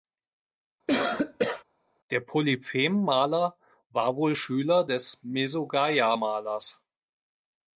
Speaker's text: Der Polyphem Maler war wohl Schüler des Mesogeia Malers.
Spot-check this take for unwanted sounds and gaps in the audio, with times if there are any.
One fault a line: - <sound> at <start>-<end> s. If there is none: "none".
- cough at 0.9-1.6 s